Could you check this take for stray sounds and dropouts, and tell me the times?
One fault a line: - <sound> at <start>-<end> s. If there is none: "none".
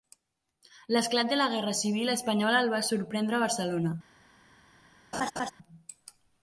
- laugh at 5.1-5.5 s